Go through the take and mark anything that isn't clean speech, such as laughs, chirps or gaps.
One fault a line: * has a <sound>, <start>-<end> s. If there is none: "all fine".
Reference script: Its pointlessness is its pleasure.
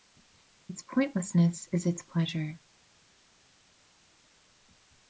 all fine